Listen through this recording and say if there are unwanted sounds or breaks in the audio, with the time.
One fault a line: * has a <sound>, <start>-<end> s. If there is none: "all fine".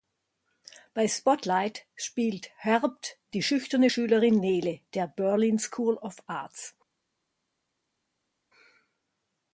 all fine